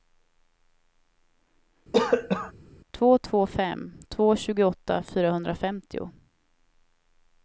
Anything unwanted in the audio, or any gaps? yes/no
yes